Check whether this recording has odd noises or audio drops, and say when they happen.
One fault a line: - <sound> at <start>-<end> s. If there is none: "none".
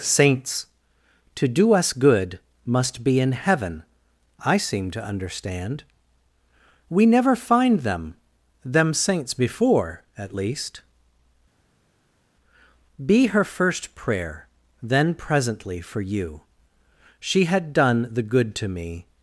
none